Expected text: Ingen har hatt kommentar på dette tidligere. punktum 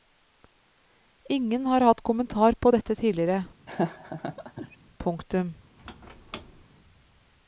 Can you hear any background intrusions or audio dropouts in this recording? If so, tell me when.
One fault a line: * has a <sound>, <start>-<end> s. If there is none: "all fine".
* has a laugh, 3.7-4.8 s
* has a squeak, 5.8-6.7 s